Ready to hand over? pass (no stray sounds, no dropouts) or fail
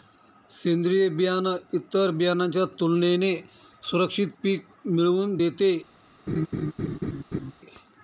fail